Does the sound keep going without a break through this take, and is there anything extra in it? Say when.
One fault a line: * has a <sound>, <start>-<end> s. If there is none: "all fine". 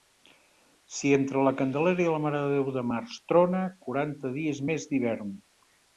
all fine